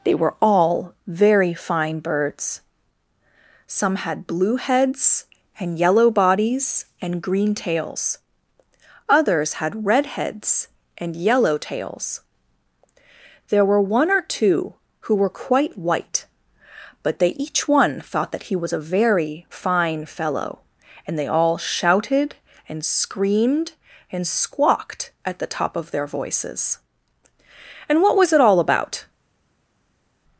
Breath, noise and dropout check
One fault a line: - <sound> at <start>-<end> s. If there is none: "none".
none